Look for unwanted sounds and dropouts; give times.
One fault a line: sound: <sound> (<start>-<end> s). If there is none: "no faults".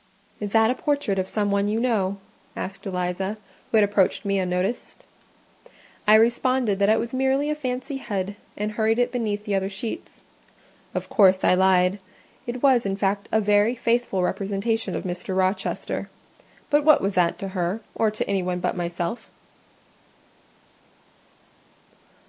no faults